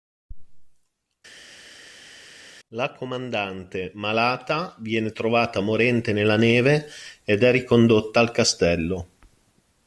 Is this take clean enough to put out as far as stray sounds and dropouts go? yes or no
yes